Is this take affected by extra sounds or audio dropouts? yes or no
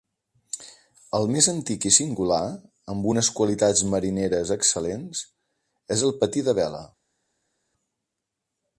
no